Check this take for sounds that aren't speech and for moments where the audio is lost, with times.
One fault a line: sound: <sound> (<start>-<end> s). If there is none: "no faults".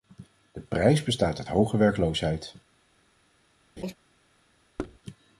sound: laugh (3.8-3.9 s)
sound: thud (4.8-5.0 s)